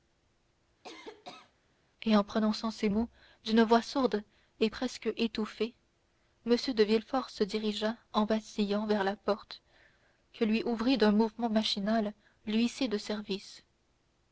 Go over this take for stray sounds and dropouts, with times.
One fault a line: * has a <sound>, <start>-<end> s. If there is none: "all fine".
* has a cough, 0.8-1.5 s